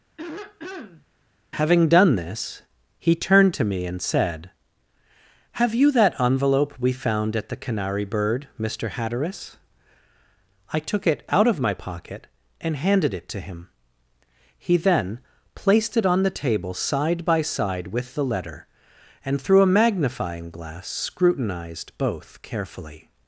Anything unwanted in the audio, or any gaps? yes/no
yes